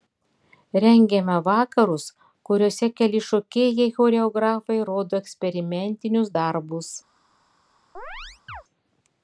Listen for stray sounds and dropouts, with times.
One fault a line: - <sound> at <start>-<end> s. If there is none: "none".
- chirp at 7.9-8.6 s